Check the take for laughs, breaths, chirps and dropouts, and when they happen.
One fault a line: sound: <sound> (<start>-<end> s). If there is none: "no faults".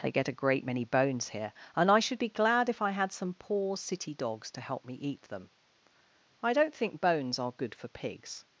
no faults